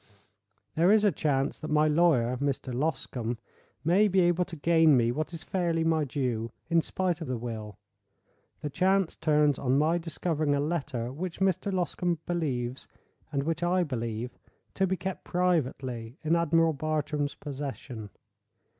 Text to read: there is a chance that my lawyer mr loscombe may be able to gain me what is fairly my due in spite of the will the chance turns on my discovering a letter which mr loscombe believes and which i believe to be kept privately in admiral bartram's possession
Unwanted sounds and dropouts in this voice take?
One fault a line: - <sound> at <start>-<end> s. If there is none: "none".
none